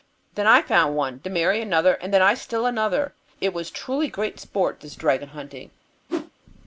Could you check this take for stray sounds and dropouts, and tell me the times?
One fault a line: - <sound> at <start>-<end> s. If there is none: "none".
- whoosh at 6.1-6.3 s